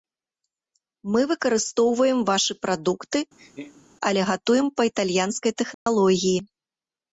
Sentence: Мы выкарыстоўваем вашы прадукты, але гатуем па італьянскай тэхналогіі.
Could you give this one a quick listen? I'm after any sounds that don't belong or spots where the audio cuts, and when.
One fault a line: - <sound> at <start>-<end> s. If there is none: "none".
- laugh at 3.4-3.9 s
- dropout at 5.7-5.9 s